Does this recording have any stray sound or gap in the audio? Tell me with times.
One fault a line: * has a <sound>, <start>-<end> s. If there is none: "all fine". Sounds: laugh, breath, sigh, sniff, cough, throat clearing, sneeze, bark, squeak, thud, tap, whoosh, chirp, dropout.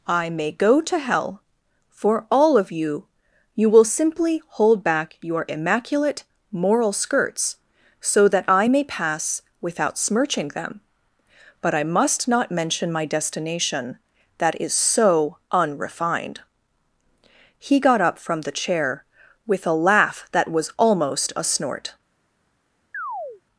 * has a chirp, 22.9-23.4 s